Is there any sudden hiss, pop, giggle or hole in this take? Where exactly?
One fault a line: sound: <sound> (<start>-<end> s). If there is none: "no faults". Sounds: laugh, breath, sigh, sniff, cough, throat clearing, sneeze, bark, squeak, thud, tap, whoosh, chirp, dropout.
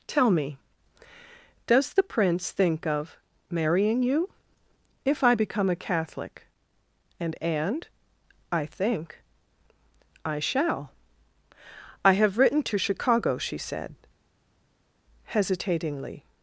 no faults